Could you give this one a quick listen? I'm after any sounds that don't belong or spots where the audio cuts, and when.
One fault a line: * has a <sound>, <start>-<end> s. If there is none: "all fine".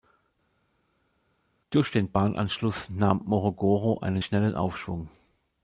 all fine